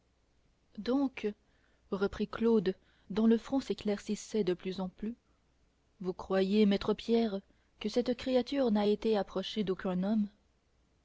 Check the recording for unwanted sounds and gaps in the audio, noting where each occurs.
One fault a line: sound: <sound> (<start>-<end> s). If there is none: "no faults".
no faults